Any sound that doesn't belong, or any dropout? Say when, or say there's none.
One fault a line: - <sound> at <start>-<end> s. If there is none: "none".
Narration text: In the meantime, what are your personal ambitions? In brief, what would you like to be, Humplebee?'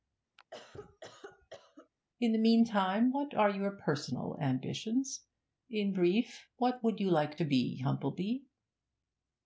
- cough at 0.4-1.9 s